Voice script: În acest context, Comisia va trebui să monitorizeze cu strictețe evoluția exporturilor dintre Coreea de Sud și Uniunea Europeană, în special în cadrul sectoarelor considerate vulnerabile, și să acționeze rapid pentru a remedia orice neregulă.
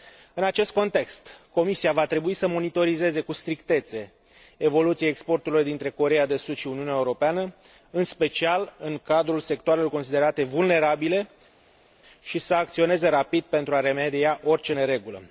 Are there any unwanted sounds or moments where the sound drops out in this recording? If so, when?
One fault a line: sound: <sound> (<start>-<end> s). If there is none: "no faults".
no faults